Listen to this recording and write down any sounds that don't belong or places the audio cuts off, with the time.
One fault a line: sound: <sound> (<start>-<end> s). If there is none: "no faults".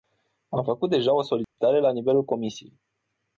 sound: dropout (1.4-1.6 s)